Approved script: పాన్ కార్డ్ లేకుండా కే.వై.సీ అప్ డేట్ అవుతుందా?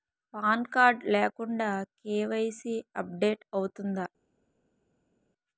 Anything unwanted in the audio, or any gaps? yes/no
no